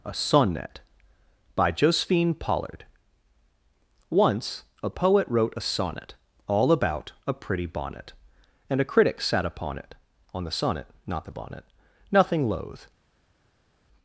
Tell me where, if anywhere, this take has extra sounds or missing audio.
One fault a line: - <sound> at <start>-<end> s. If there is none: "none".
none